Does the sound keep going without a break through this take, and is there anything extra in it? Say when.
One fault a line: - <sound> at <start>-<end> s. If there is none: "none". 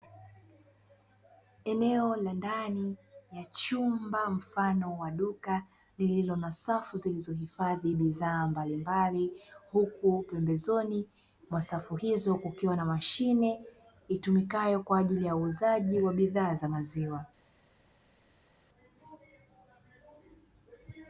none